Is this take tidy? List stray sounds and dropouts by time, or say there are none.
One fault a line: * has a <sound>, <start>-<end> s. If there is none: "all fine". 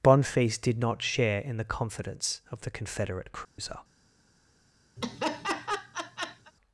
* has a dropout, 3.4-3.6 s
* has a laugh, 5.0-6.5 s